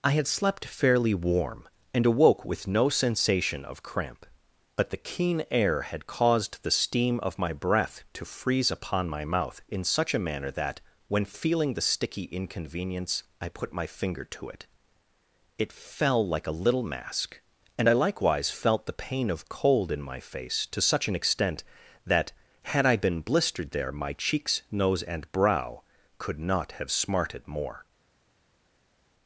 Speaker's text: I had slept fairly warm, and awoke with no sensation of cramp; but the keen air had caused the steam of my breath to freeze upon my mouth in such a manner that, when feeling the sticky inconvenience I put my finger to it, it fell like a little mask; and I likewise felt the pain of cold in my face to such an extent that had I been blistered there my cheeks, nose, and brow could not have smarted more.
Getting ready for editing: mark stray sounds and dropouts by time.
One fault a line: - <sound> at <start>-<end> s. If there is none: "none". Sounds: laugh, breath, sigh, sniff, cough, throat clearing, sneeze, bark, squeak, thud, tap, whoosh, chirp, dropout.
none